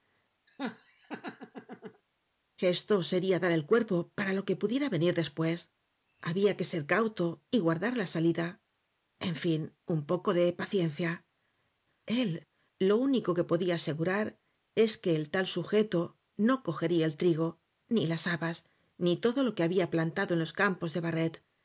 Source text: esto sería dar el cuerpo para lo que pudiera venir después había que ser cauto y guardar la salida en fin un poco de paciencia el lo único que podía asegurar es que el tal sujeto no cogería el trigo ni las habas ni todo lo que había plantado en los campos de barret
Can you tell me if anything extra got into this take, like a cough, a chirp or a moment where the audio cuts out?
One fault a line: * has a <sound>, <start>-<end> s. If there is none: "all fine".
* has a laugh, 0.5-2.0 s